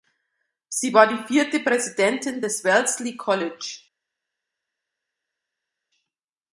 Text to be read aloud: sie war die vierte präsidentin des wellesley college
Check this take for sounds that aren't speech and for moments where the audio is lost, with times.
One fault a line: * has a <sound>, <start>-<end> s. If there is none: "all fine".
all fine